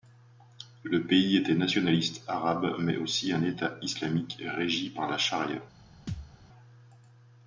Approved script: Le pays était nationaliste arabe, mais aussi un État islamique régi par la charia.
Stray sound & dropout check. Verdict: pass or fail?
fail